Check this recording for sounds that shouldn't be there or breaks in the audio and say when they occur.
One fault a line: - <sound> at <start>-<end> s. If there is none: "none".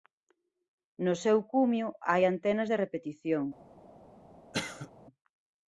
- cough at 4.5-4.9 s